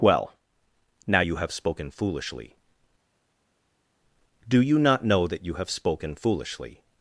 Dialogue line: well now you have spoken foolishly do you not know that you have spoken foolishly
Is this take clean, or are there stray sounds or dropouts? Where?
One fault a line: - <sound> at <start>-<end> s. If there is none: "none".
none